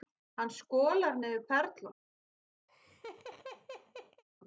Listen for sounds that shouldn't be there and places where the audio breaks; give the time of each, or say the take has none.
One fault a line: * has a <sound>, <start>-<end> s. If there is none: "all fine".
* has a laugh, 2.7-4.2 s